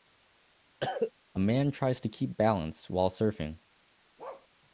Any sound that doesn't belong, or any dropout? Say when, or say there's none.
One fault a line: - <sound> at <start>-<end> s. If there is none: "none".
- cough at 0.8-1.1 s
- bark at 4.2-4.5 s